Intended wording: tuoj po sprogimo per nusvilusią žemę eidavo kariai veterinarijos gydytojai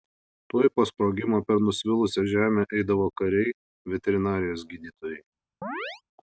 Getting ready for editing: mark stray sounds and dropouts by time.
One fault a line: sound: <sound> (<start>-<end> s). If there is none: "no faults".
sound: chirp (5.6-6.0 s)